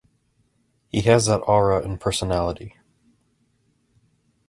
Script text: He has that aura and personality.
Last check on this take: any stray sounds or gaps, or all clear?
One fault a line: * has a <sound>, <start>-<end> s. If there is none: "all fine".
all fine